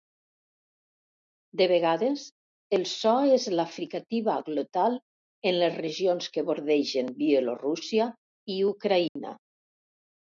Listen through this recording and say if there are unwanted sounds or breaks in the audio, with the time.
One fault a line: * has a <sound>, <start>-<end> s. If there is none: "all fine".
* has a dropout, 9.1-9.2 s